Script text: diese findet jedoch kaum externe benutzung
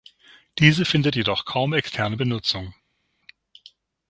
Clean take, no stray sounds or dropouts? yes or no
yes